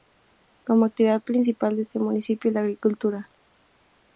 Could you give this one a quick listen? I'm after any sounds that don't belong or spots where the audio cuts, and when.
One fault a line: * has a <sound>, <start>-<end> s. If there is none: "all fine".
all fine